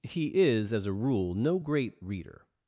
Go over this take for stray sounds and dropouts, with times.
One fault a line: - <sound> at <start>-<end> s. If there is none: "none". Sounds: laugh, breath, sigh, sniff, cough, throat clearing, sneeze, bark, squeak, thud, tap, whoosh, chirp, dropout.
none